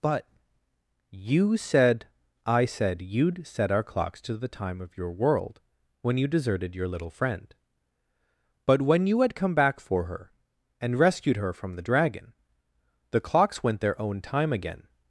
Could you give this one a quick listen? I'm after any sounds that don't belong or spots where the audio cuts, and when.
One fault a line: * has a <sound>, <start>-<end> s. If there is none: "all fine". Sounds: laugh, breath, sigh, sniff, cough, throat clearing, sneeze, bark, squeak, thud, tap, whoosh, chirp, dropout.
all fine